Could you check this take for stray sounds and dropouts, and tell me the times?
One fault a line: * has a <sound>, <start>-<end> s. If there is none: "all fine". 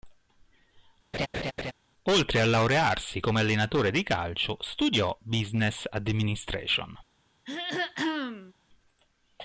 * has a laugh, 1.1-1.7 s
* has a throat clearing, 7.4-8.5 s